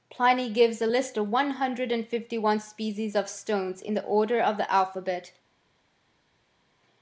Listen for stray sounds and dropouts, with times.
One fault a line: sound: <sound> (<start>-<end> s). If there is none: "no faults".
no faults